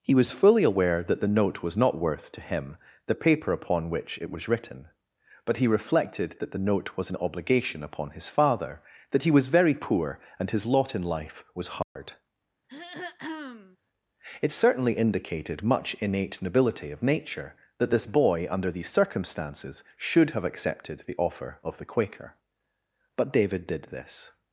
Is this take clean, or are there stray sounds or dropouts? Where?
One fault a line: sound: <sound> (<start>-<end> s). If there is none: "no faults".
sound: dropout (11.8-12.0 s)
sound: throat clearing (12.7-13.8 s)